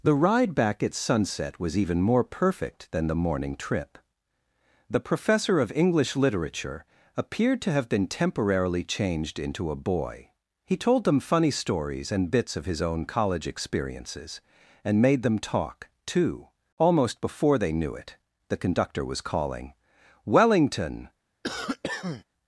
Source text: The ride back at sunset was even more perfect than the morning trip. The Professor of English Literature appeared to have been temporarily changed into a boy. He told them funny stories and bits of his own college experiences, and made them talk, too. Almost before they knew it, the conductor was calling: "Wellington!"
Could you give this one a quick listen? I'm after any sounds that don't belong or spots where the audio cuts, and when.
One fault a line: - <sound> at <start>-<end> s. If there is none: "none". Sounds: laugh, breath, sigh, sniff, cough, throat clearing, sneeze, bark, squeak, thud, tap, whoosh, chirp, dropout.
- cough at 21.4-22.2 s